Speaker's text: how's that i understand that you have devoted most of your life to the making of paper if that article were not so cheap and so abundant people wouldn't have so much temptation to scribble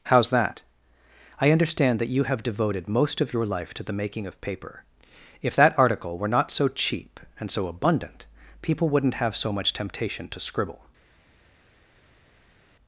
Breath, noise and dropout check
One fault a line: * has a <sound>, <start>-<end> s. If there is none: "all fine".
all fine